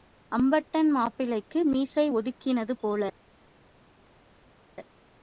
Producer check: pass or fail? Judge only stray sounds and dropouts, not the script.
pass